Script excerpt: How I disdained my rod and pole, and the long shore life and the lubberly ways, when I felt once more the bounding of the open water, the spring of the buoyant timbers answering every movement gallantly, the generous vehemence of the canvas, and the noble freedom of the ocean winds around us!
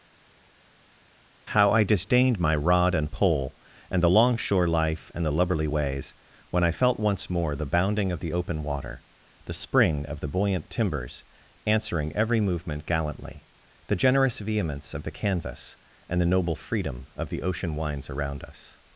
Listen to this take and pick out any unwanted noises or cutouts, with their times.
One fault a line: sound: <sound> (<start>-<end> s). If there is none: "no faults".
no faults